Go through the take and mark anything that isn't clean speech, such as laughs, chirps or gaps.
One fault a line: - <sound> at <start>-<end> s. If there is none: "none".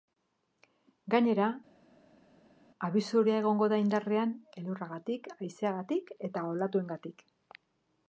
none